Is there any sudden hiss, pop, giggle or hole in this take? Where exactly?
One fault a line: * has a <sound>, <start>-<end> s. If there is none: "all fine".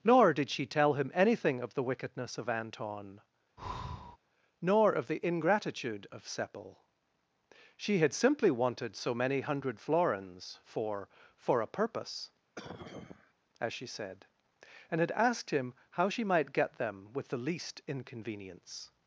* has a breath, 3.6-4.2 s
* has a cough, 12.5-13.3 s